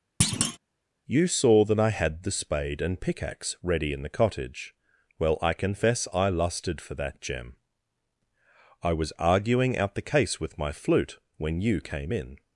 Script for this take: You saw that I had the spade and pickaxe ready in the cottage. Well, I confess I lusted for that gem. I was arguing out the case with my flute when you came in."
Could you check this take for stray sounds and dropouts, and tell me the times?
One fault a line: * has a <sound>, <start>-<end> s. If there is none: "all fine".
* has a thud, 0.2-0.6 s